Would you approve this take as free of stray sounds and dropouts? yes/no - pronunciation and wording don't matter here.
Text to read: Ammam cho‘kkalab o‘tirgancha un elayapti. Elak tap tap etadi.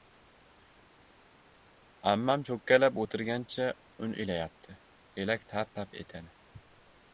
yes